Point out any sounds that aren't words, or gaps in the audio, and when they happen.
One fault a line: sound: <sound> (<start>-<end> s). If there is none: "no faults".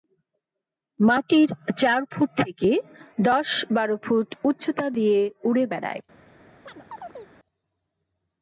sound: chirp (6.6-7.3 s)